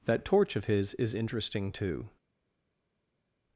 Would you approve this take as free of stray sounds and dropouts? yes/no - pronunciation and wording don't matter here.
yes